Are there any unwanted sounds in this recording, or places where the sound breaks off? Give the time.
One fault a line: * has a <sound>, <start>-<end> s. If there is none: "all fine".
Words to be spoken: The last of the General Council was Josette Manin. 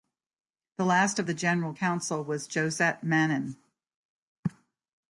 all fine